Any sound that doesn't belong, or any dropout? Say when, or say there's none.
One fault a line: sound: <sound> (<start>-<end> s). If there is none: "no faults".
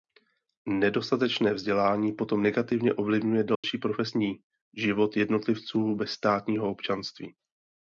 sound: dropout (3.5-3.6 s)